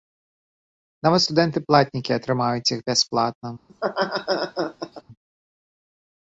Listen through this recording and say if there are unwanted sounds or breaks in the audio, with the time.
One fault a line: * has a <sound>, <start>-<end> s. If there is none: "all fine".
* has a laugh, 3.7-5.0 s